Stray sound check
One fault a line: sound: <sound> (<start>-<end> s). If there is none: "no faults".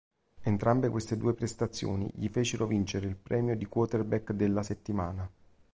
no faults